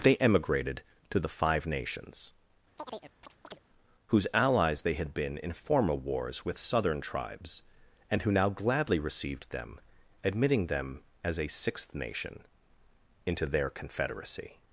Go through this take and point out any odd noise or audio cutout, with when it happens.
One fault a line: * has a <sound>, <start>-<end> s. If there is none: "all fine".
* has a chirp, 2.8-3.6 s